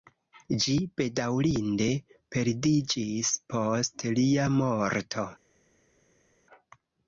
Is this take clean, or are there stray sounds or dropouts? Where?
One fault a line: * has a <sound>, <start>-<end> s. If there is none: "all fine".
all fine